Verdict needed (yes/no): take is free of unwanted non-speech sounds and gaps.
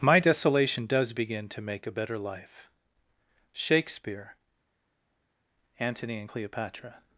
yes